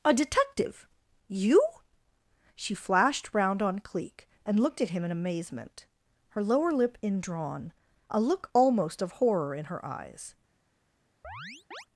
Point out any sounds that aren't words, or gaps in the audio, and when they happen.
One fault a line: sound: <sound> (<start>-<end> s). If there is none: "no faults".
sound: chirp (11.2-11.9 s)